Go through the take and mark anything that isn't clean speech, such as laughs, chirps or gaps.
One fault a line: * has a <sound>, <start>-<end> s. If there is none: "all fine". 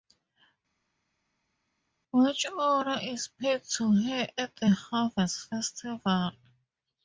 all fine